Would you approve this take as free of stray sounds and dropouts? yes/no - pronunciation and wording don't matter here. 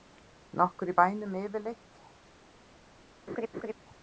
no